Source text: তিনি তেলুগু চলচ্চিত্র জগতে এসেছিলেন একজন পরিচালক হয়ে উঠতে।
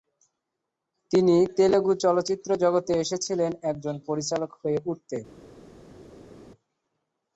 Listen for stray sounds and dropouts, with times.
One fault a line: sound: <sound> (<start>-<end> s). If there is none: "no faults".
no faults